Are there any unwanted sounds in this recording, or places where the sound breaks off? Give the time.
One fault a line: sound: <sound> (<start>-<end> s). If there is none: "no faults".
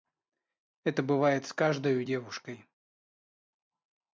no faults